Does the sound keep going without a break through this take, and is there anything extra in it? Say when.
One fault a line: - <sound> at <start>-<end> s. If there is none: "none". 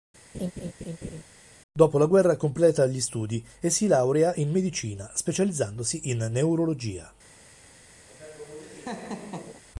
- laugh at 0.3-1.2 s
- laugh at 8.1-9.6 s